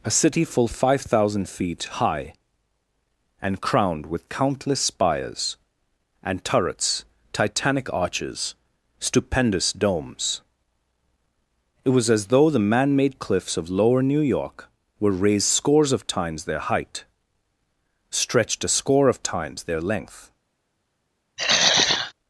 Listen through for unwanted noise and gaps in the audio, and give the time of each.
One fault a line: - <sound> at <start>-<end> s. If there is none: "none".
- throat clearing at 21.4-22.1 s